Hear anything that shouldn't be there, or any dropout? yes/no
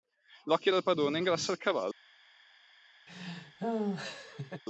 yes